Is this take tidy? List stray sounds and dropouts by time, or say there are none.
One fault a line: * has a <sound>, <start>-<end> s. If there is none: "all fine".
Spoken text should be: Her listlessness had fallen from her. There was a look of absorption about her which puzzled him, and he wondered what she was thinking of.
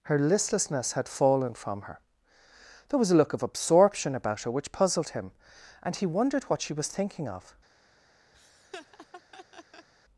* has a laugh, 8.3-9.9 s